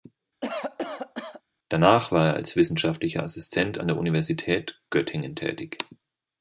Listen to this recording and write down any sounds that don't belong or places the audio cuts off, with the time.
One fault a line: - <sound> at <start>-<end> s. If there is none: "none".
- cough at 0.4-1.4 s